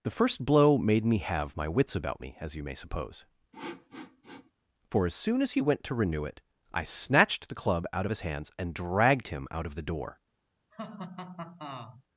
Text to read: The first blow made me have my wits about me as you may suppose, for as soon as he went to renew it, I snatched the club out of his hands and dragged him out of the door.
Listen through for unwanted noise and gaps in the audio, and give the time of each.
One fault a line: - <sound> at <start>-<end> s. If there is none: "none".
- sniff at 3.5-4.5 s
- laugh at 10.7-12.0 s